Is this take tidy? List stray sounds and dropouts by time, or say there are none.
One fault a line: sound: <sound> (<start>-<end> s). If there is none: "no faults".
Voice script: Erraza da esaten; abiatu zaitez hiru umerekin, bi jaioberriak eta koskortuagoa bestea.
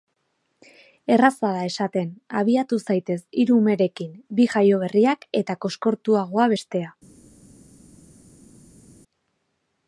no faults